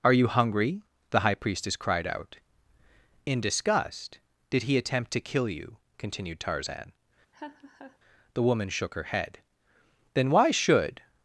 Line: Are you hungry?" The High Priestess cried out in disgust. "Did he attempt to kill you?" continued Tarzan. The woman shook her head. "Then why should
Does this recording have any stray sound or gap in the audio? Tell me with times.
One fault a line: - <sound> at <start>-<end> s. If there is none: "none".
- laugh at 7.3-8.0 s